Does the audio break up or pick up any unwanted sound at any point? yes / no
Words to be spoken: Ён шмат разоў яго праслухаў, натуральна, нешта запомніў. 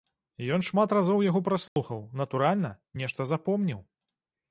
yes